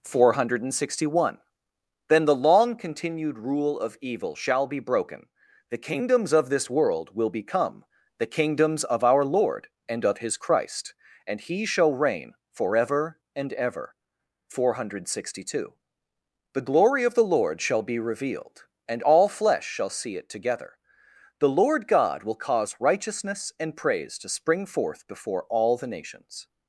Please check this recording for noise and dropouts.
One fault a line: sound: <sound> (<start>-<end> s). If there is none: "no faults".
no faults